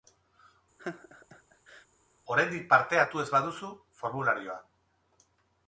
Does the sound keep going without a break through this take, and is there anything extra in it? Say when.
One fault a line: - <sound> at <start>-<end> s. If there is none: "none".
- laugh at 0.8-1.9 s